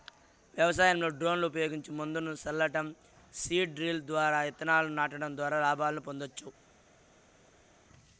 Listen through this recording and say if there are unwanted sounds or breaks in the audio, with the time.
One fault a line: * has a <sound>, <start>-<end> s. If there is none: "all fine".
all fine